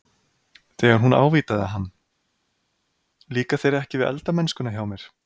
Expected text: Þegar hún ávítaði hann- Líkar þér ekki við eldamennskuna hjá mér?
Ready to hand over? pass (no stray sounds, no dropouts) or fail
pass